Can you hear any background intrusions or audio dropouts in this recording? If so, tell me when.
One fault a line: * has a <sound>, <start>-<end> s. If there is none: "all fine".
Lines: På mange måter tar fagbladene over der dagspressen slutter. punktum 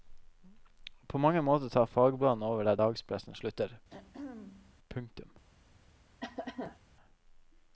* has a throat clearing, 3.9-4.8 s
* has a cough, 6.2-6.8 s